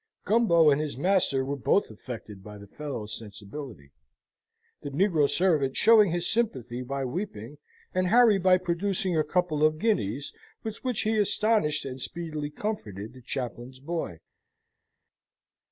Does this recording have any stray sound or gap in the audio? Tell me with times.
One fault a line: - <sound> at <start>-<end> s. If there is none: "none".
none